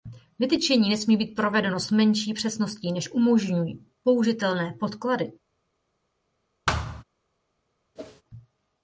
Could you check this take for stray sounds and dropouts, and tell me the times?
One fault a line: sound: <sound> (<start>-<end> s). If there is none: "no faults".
sound: thud (6.7-7.0 s)
sound: whoosh (8.0-8.2 s)